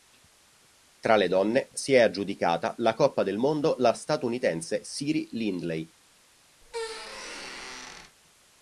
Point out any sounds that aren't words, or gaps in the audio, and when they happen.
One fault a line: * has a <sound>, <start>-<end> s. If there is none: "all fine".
* has a squeak, 6.6-8.2 s